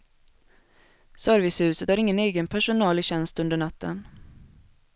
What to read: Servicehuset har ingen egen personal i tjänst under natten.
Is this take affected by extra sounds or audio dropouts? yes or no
no